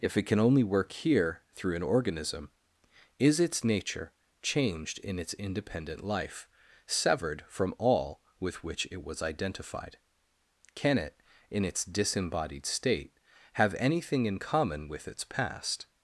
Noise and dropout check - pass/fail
pass